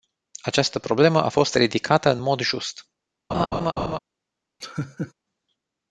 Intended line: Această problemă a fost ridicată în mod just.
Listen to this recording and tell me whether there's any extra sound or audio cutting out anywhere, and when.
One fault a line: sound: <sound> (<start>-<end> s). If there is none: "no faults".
sound: laugh (3.3-4.0 s)
sound: laugh (4.6-5.1 s)